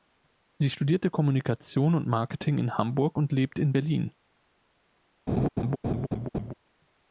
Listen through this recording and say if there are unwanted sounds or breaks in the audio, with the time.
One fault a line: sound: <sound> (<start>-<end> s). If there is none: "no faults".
sound: laugh (5.3-6.5 s)